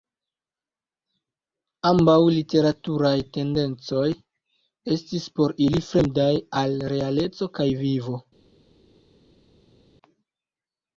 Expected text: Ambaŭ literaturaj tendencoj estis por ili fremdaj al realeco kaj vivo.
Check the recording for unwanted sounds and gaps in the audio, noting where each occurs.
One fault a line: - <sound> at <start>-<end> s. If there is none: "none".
none